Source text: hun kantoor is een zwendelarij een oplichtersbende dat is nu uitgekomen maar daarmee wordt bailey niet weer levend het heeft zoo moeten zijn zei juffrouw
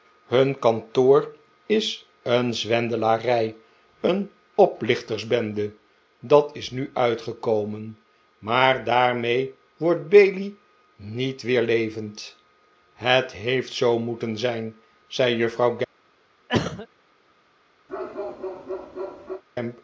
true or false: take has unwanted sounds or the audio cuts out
true